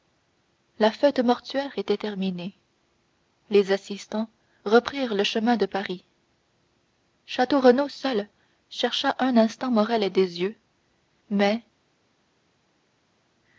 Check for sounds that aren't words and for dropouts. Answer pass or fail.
pass